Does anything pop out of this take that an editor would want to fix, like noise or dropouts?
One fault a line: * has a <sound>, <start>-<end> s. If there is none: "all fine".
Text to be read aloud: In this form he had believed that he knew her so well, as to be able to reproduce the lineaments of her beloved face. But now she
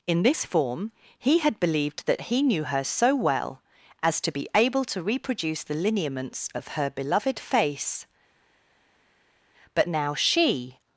all fine